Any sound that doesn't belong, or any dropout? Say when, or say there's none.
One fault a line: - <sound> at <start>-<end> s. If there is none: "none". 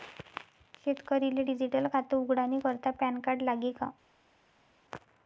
none